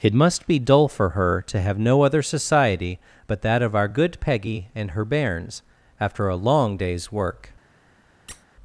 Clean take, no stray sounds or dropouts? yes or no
no